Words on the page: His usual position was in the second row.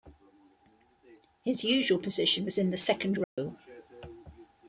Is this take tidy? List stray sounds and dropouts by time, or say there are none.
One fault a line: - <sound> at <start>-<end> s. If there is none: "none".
- dropout at 3.2-3.4 s